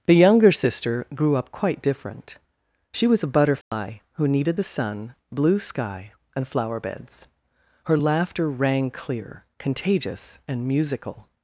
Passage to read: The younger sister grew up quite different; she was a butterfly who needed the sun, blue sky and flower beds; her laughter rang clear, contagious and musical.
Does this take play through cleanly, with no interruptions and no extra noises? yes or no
no